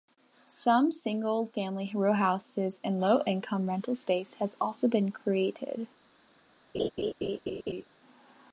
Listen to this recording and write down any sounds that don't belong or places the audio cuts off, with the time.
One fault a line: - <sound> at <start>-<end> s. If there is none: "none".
- laugh at 6.7-7.8 s